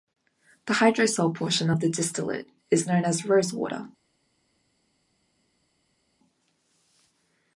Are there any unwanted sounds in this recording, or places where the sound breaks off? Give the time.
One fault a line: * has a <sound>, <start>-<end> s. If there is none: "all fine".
all fine